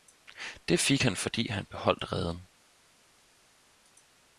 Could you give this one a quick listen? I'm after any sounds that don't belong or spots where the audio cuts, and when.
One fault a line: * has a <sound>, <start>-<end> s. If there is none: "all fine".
all fine